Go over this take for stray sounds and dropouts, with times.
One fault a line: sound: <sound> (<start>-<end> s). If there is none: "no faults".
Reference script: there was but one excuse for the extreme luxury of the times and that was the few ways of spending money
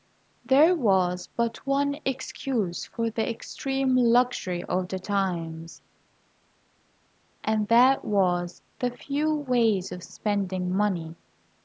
no faults